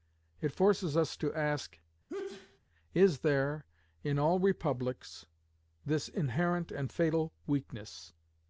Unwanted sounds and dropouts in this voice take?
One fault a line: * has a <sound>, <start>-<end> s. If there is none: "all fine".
* has a sneeze, 2.1-2.6 s